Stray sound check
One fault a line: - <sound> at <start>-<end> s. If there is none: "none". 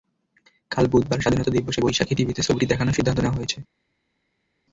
none